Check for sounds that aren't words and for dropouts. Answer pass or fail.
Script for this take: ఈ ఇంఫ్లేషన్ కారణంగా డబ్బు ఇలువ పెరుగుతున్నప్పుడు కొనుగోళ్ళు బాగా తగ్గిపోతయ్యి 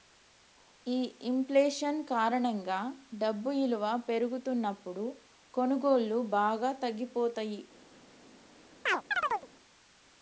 fail